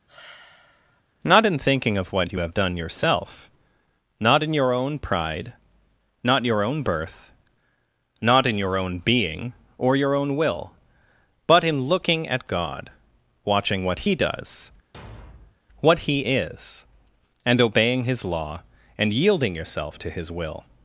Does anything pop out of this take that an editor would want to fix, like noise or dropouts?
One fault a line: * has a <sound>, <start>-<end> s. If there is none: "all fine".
* has a sigh, 0.1-1.0 s
* has a thud, 14.9-15.6 s